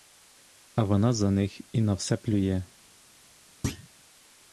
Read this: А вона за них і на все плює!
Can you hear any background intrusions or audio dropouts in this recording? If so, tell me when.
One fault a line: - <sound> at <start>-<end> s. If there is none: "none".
- thud at 3.6-3.9 s